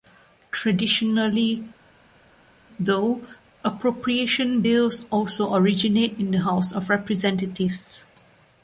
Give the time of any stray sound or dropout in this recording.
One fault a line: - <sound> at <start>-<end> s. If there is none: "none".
none